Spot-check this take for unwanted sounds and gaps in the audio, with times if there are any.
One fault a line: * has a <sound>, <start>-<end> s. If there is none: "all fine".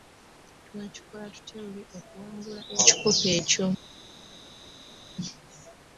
all fine